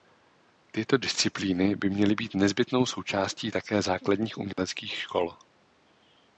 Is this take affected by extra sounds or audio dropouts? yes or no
yes